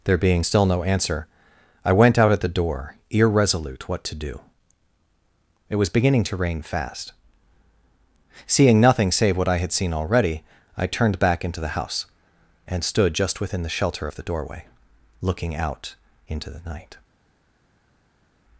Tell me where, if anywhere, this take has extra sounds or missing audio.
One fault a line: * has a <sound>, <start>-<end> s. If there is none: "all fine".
all fine